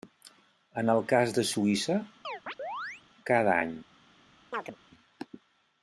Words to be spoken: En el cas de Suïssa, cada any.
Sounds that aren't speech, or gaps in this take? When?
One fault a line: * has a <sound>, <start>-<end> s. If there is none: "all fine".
* has a chirp, 2.2-3.0 s
* has a chirp, 4.5-4.8 s